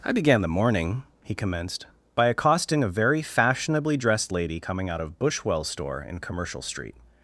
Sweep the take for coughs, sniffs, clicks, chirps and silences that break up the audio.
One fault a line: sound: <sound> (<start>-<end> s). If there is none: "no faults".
no faults